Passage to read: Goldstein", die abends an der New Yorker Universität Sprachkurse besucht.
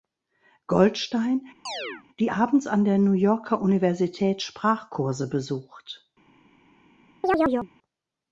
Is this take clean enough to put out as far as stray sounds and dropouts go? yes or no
no